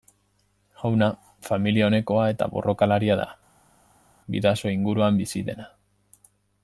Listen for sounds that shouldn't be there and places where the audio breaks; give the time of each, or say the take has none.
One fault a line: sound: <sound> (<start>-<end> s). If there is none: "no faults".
no faults